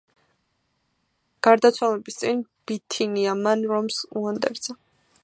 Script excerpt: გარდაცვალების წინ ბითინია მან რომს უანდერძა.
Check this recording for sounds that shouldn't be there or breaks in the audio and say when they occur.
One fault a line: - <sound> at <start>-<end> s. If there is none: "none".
none